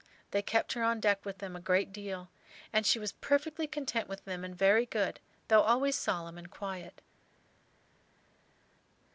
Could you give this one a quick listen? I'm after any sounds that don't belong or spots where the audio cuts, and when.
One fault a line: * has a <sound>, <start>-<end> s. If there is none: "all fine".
all fine